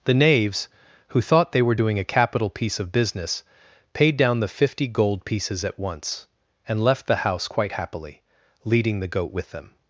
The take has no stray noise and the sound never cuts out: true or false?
true